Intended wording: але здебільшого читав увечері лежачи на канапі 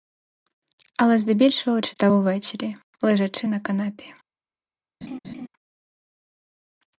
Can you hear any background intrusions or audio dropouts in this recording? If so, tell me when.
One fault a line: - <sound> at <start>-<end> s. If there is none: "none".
- laugh at 5.0-5.5 s